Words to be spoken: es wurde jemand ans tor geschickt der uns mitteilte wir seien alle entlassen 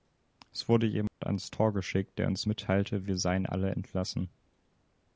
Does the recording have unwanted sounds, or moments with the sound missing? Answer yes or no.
yes